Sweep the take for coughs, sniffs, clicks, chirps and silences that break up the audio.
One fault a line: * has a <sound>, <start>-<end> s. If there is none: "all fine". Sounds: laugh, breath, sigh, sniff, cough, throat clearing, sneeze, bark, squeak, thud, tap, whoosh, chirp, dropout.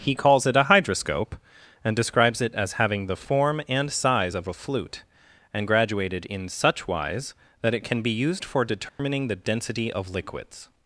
* has a dropout, 8.9-9.0 s